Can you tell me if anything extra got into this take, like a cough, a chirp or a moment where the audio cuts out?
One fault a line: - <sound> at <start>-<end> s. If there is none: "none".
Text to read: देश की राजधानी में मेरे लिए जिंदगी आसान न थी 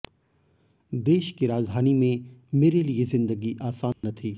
- dropout at 3.9-4.0 s